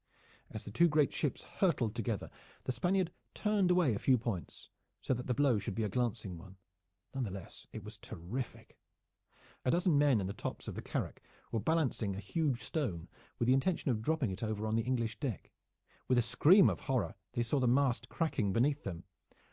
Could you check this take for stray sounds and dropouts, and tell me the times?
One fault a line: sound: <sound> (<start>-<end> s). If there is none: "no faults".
no faults